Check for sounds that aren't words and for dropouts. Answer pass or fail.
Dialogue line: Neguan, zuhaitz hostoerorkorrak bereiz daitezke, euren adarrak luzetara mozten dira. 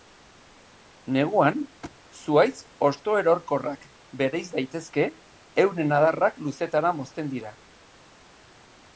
fail